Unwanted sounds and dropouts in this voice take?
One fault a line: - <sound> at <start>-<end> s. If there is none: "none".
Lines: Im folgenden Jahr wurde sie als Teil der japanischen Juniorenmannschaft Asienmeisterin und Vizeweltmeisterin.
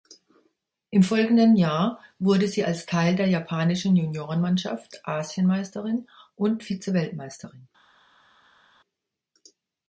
none